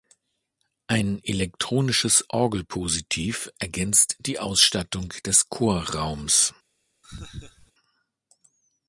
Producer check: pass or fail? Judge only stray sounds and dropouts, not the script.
fail